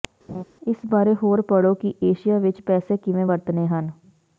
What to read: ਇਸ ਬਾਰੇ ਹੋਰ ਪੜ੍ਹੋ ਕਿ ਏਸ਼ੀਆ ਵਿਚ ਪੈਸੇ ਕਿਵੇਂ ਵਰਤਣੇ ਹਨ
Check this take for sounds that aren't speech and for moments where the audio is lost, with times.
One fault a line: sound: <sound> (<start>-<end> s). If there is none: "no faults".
sound: laugh (0.3-0.4 s)